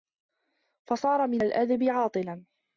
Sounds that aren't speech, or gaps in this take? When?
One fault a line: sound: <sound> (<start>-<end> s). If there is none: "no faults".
no faults